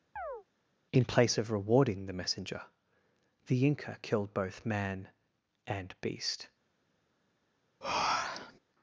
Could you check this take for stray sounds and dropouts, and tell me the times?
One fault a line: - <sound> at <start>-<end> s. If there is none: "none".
- chirp at 0.2-0.4 s
- breath at 7.8-8.6 s